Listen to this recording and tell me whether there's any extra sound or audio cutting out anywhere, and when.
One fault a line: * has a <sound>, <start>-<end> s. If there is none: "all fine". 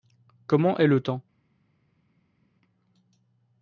all fine